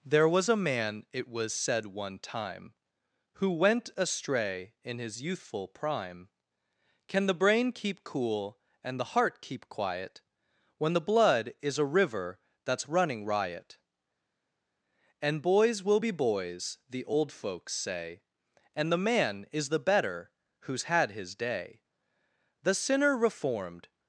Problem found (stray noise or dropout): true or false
false